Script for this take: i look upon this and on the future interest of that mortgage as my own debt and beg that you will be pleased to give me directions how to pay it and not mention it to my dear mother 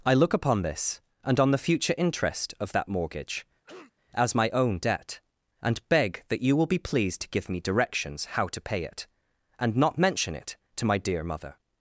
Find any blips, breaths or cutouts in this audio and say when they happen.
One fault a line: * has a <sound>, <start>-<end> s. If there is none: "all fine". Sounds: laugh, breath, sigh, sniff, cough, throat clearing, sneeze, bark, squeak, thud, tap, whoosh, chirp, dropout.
* has a cough, 3.6-3.9 s